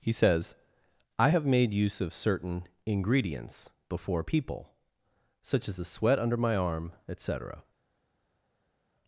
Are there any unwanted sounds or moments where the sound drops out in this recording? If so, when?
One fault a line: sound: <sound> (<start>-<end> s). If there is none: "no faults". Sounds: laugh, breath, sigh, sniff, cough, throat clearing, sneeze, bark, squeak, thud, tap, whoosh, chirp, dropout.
no faults